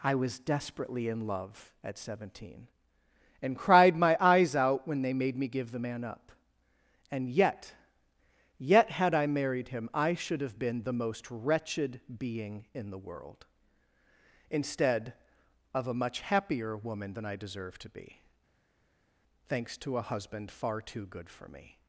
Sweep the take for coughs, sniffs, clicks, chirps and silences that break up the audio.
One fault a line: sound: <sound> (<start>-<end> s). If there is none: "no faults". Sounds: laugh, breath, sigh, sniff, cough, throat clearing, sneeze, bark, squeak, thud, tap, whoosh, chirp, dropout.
no faults